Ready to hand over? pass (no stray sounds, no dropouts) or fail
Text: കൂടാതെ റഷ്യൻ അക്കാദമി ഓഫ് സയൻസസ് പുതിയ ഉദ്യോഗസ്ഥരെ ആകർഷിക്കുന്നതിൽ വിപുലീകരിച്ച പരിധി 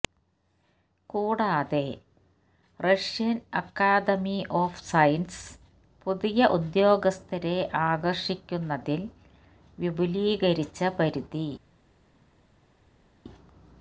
pass